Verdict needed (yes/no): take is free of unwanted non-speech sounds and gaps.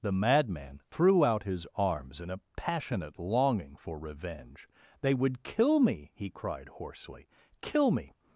yes